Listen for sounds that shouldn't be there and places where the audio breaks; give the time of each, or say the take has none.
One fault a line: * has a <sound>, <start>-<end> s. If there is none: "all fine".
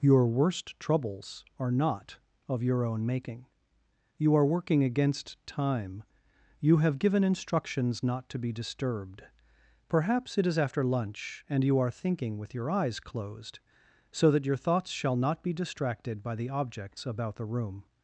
all fine